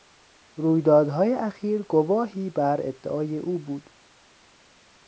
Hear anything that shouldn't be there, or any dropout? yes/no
no